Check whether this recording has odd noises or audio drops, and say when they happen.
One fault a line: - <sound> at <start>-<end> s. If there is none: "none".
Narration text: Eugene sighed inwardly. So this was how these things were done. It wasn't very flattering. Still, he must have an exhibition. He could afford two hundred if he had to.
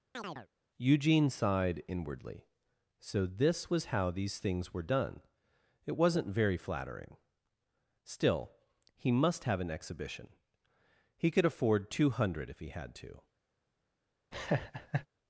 - chirp at 0.1-0.5 s
- laugh at 14.3-15.1 s